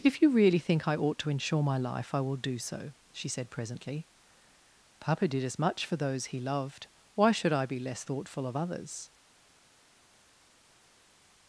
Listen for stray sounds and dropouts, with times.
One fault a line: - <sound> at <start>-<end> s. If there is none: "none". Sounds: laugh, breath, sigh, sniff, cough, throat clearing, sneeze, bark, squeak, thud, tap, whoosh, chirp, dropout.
none